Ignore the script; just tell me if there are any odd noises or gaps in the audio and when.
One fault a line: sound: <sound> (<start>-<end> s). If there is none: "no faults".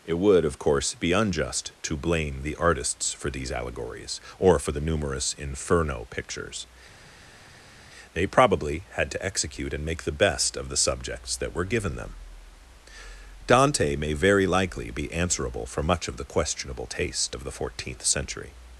no faults